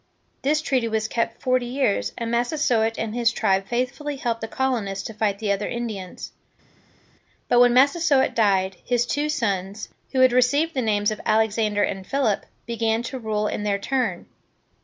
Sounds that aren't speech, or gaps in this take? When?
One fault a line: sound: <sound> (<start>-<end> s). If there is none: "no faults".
no faults